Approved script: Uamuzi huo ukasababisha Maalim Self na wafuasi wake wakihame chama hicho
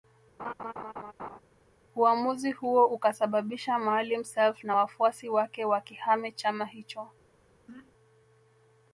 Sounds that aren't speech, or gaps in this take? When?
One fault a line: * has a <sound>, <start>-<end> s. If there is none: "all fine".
* has a laugh, 0.4-1.4 s
* has a throat clearing, 7.7-7.9 s